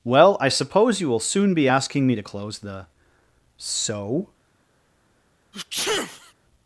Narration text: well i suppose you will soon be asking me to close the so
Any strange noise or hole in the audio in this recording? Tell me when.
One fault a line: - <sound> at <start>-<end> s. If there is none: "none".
- sneeze at 5.5-6.3 s